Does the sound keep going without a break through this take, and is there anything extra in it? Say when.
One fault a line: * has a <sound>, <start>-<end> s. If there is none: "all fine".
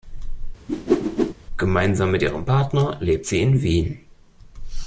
* has a whoosh, 0.7-1.3 s